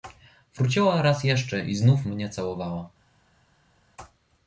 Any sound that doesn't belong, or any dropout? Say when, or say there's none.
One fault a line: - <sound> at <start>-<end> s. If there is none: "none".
none